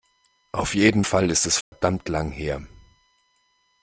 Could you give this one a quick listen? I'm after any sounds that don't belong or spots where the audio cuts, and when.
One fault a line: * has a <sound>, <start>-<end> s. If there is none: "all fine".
* has a dropout, 1.6-1.7 s